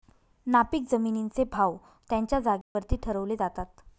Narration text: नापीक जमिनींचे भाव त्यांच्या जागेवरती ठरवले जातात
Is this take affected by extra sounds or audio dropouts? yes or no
yes